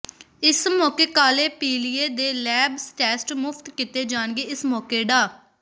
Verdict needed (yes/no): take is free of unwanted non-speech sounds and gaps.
yes